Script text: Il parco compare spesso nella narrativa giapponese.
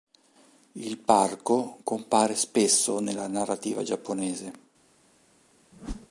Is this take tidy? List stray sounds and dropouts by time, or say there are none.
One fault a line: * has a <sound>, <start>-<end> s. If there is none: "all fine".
* has a whoosh, 5.7-6.1 s